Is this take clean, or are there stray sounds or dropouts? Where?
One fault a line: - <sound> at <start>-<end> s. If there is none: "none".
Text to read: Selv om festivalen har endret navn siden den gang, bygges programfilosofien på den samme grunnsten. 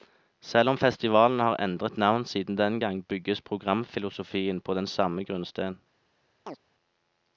- chirp at 6.5-6.6 s